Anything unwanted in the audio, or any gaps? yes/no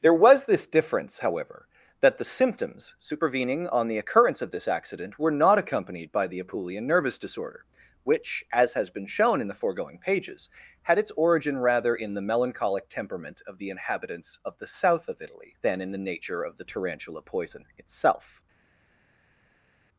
no